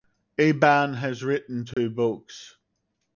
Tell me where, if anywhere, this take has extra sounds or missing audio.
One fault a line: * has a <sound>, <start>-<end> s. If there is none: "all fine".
* has a dropout, 1.7-1.8 s